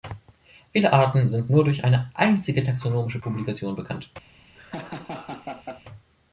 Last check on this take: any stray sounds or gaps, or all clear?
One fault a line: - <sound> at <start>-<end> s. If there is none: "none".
- laugh at 4.5-5.8 s